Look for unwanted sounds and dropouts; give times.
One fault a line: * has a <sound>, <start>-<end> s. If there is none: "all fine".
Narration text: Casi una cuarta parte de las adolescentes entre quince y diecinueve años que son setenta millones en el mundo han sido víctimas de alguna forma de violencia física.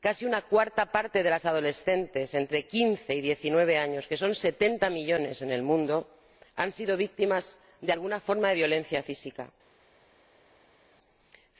all fine